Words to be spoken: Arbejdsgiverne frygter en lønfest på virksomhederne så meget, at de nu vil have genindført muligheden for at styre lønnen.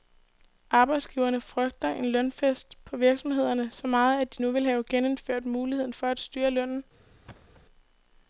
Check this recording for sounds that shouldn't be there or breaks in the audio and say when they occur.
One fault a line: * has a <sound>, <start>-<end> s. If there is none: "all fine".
* has a thud, 7.3-7.6 s